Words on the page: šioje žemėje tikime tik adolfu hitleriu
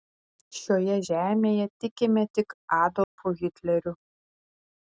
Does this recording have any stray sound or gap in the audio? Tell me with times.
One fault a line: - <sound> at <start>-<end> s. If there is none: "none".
- dropout at 3.0-3.2 s